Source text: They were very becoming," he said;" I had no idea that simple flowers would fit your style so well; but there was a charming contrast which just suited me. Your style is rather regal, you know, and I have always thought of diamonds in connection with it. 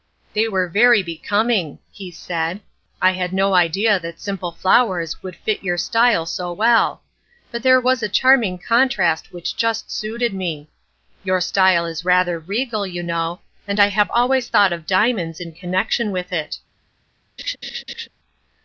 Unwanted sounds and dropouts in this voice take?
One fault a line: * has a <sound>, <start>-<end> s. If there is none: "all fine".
* has a laugh, 17.4-18.1 s